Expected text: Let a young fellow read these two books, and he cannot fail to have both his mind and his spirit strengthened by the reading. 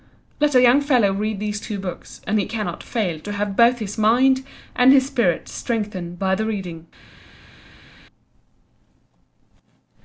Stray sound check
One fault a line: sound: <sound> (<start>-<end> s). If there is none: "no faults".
no faults